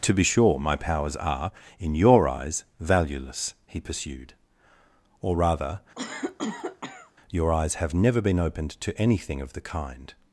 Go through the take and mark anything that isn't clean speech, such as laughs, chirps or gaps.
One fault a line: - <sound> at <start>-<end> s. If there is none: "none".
- cough at 5.9-7.1 s